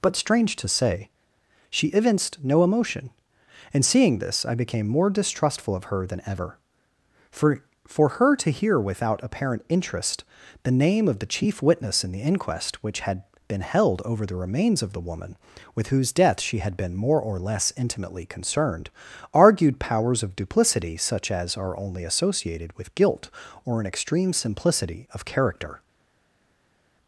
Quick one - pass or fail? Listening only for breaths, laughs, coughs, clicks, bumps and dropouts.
pass